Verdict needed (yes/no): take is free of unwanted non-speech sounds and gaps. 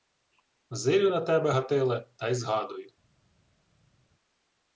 yes